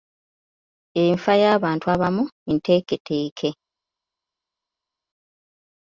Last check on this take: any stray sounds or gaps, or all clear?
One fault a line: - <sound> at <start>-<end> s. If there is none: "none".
none